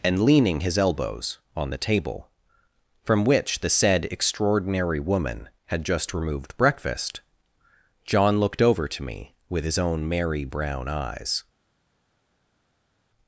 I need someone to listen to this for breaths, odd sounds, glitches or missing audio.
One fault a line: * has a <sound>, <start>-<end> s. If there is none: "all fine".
all fine